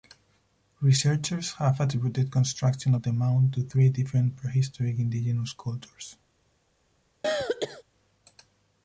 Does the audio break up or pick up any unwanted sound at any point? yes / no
yes